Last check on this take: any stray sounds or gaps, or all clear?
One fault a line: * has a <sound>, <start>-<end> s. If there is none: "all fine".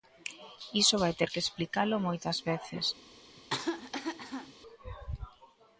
* has a cough, 3.4-4.5 s